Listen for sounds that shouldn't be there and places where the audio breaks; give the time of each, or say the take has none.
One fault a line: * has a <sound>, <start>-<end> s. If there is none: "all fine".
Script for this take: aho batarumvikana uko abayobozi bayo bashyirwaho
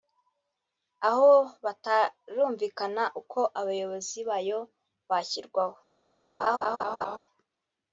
* has a laugh, 6.4-7.2 s